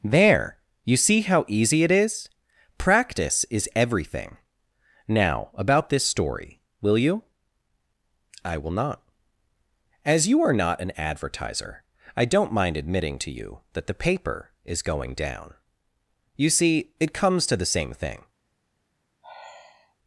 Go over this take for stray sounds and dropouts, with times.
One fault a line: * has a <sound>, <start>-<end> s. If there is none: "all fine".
* has a sigh, 19.2-20.0 s